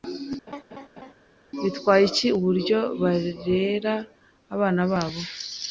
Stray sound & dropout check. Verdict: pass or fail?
fail